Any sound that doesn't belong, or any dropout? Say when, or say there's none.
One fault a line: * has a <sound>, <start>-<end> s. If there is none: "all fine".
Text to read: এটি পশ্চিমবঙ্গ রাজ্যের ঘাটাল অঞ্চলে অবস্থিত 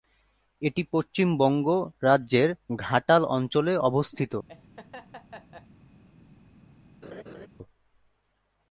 * has a laugh, 4.5-5.7 s
* has a laugh, 7.0-7.5 s